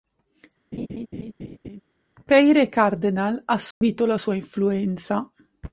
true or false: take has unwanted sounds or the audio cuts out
true